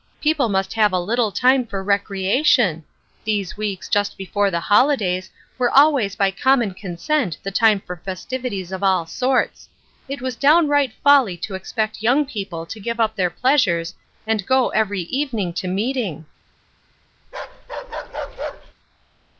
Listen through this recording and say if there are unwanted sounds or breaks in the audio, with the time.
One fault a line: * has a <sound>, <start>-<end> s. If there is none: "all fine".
* has a bark, 17.2-18.7 s